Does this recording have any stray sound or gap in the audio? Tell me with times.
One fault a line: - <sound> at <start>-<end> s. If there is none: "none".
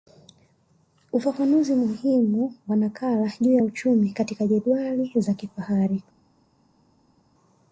none